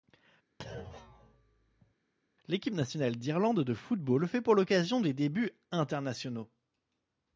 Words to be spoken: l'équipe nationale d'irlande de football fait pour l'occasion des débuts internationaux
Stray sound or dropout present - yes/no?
yes